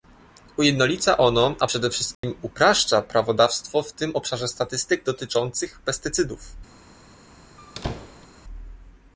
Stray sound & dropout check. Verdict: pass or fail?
fail